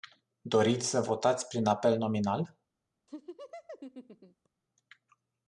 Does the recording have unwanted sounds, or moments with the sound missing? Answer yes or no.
yes